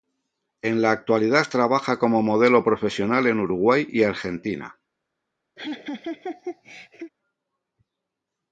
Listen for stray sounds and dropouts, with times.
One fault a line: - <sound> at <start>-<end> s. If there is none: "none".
- laugh at 5.6-7.1 s